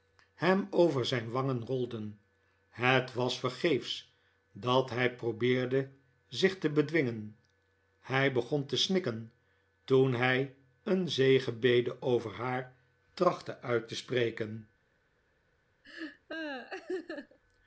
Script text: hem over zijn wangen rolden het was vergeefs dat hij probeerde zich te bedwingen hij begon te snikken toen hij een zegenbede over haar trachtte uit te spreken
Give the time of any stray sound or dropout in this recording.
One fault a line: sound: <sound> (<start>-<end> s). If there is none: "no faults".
sound: laugh (15.8-17.4 s)